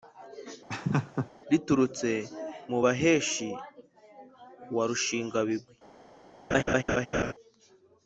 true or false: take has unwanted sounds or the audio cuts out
true